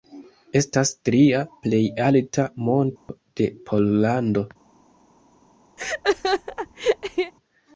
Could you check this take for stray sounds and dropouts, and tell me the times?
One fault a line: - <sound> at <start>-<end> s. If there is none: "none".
- dropout at 3.0-3.1 s
- laugh at 5.8-7.3 s